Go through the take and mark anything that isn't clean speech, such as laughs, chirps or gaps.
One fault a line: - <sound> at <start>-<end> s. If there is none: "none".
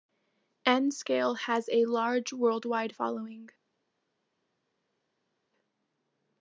none